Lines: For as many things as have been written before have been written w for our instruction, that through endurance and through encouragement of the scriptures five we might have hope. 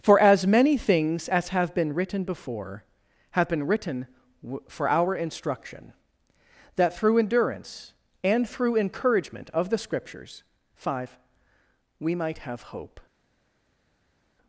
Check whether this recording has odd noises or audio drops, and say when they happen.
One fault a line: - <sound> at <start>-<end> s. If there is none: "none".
none